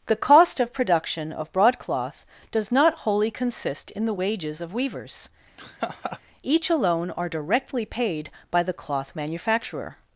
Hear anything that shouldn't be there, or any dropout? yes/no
yes